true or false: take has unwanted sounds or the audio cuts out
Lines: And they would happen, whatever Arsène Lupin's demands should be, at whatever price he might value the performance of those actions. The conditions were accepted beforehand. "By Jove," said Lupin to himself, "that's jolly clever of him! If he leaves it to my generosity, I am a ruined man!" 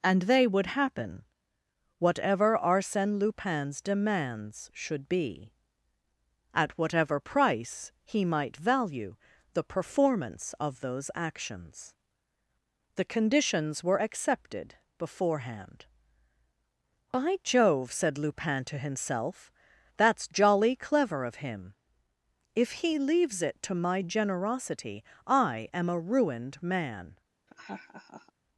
true